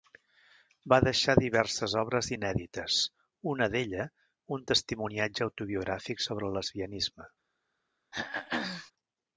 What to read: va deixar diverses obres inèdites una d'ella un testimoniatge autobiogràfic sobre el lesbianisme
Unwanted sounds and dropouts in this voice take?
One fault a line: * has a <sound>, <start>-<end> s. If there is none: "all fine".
* has a throat clearing, 8.1-8.9 s